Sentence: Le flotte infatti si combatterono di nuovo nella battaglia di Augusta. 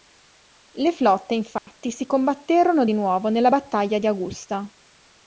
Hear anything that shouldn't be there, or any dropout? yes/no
yes